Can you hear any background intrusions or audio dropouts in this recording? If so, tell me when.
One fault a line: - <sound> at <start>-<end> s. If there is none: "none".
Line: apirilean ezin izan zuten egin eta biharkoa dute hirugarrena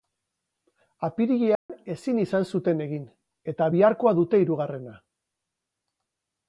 - dropout at 1.6-1.7 s